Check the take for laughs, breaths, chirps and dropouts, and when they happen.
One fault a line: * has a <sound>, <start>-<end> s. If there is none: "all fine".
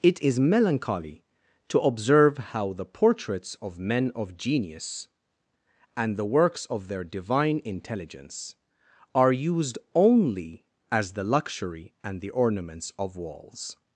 all fine